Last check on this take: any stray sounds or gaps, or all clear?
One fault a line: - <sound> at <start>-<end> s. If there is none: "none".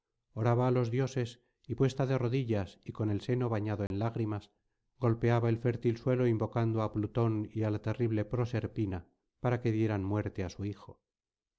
- dropout at 3.9-3.9 s